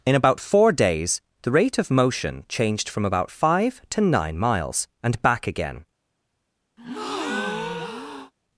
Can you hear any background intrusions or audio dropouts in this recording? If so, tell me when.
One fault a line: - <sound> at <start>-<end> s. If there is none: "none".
- breath at 6.8-8.3 s